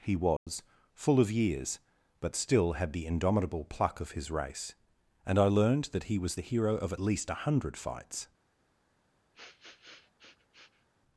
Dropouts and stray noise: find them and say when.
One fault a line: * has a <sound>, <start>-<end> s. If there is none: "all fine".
* has a dropout, 0.4-0.5 s
* has a sniff, 9.3-10.9 s